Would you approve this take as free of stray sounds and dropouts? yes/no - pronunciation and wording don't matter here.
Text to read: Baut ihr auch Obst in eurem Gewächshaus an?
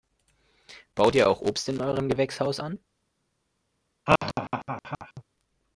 no